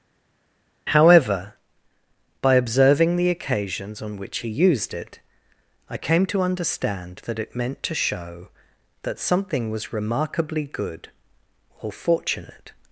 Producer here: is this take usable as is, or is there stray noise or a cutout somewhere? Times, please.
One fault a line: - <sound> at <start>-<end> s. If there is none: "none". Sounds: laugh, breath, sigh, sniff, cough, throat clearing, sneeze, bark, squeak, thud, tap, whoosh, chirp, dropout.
none